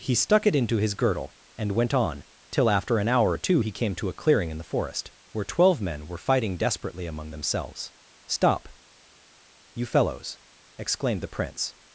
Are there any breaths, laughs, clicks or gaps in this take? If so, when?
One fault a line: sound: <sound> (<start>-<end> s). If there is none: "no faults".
no faults